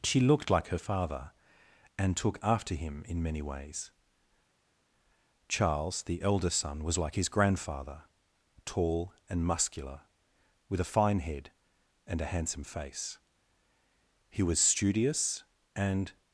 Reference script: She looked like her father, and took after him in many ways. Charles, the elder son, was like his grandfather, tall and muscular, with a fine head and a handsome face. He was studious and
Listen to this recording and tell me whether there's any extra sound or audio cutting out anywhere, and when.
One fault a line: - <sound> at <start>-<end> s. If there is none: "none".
none